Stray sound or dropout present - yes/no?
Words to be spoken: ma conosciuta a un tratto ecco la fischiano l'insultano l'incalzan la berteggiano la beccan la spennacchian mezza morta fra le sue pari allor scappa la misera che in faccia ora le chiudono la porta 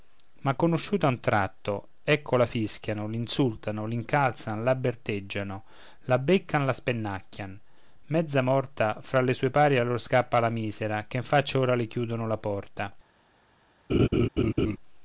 yes